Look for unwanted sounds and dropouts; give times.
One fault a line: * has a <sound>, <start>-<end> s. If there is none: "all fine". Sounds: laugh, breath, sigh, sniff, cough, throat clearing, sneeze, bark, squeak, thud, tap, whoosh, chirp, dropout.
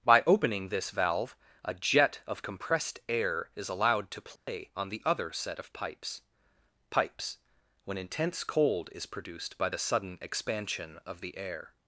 * has a dropout, 4.4-4.5 s